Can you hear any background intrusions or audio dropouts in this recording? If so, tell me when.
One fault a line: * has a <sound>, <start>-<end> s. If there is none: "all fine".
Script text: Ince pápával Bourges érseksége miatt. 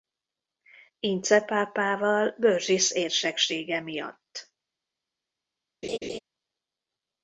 * has a laugh, 5.8-6.2 s